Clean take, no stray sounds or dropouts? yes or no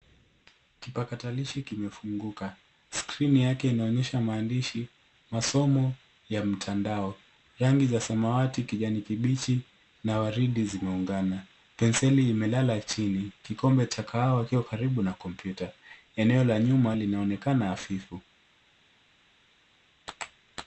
yes